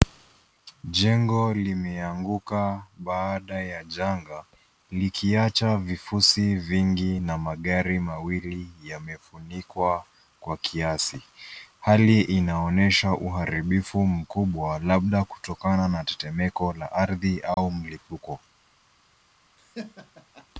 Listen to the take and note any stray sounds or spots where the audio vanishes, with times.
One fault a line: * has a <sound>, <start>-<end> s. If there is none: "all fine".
* has a dropout, 17.5-17.6 s
* has a laugh, 19.6-20.5 s